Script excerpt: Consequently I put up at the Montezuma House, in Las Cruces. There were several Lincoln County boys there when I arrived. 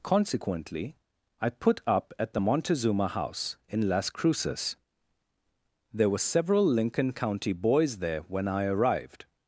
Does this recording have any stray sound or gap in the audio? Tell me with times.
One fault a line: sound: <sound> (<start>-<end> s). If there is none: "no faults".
no faults